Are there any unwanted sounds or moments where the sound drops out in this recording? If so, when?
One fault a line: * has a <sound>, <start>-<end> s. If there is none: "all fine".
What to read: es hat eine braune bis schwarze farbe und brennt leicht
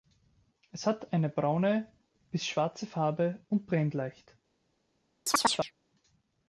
* has a chirp, 5.3-5.7 s